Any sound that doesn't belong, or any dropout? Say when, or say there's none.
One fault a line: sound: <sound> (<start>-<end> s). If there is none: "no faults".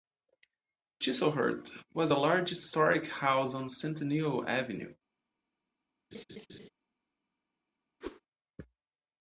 sound: laugh (6.1-6.7 s)
sound: whoosh (8.0-8.2 s)